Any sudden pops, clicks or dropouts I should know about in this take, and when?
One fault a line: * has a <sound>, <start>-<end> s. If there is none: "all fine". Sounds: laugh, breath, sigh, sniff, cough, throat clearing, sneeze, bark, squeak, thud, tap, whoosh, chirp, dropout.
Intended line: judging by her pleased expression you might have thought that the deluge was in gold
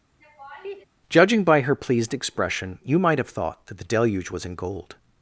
* has a laugh, 0.2-0.8 s